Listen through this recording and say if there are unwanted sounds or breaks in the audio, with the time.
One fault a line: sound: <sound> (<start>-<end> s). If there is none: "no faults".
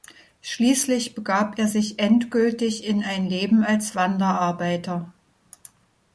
no faults